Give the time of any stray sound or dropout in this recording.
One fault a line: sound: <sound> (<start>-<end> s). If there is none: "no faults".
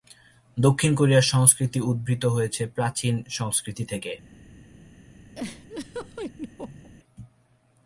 sound: laugh (5.3-6.9 s)